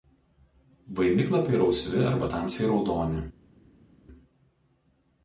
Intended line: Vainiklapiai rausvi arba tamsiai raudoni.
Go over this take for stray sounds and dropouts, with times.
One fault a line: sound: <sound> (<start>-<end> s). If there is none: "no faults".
no faults